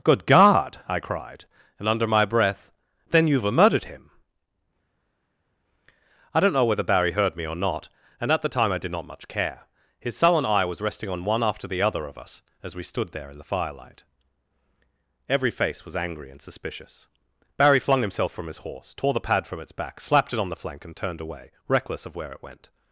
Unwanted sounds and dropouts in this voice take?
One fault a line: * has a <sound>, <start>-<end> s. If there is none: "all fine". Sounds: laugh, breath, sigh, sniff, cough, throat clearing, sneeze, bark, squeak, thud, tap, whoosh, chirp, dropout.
all fine